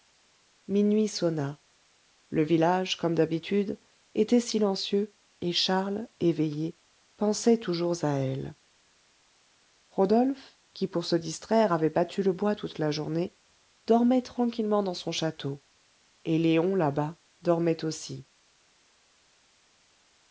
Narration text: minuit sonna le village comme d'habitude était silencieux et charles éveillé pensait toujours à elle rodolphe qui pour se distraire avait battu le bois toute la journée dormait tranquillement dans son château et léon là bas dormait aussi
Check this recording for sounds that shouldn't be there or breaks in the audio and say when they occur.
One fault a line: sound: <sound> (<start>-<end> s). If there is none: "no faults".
no faults